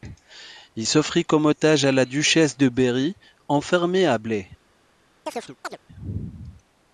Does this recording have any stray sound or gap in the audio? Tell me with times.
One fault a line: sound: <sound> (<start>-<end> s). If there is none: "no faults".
sound: chirp (5.3-5.8 s)